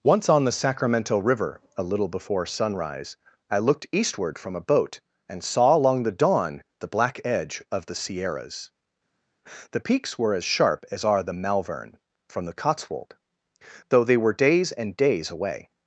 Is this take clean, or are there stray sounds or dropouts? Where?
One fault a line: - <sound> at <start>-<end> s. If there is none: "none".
none